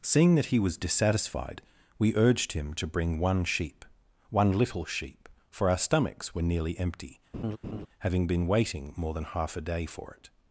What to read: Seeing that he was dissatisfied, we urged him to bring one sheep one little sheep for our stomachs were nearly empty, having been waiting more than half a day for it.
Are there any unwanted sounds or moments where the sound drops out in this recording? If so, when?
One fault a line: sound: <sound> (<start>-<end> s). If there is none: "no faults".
sound: laugh (7.3-7.9 s)